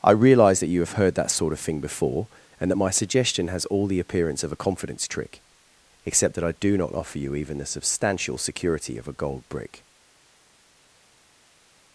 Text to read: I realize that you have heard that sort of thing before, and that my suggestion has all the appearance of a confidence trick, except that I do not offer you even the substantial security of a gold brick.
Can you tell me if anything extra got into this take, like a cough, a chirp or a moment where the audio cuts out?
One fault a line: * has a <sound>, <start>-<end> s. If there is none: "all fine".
all fine